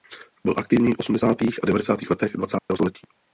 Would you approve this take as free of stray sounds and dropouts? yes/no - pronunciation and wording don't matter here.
no